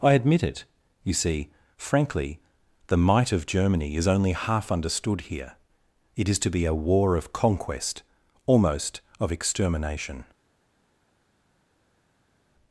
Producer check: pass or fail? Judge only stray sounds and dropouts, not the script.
pass